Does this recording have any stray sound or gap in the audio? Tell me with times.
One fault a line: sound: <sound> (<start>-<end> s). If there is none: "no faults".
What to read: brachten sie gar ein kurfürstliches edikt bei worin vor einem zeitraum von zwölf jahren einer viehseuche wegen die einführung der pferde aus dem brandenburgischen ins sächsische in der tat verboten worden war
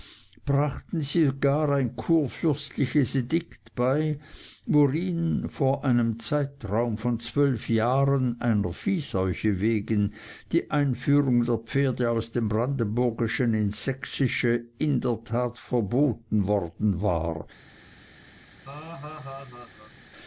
sound: laugh (18.6-19.9 s)